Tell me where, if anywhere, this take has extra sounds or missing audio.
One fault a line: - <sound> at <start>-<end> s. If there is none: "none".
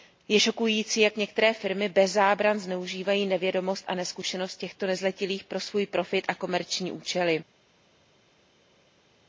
none